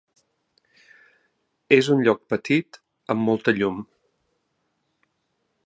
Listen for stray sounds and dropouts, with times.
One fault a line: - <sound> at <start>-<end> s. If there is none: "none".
none